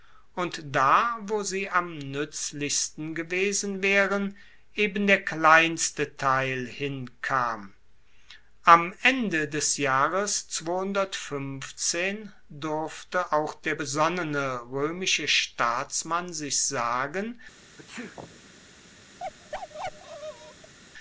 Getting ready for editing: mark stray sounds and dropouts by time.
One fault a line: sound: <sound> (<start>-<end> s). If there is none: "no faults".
sound: sneeze (17.8-18.5 s)
sound: bark (19.2-20.7 s)